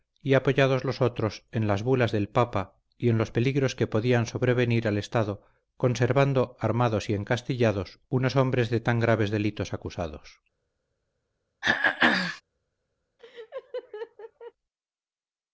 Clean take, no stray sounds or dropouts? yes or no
no